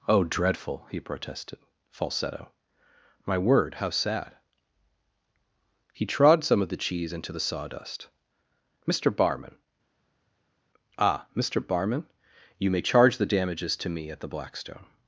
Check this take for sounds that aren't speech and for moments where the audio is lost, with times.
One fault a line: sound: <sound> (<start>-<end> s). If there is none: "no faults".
no faults